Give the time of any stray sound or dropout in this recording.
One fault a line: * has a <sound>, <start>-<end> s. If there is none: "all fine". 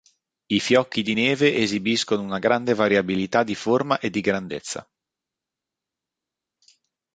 all fine